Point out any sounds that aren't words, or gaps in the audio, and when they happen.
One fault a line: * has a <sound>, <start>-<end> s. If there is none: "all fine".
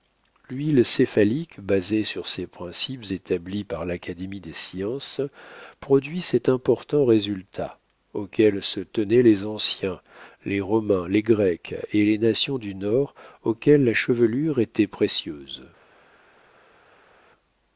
all fine